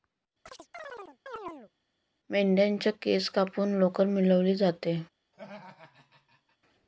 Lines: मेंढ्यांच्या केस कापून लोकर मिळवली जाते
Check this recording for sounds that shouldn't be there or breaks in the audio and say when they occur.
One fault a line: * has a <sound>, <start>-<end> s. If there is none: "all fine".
* has a chirp, 0.5-1.7 s
* has a laugh, 5.3-6.6 s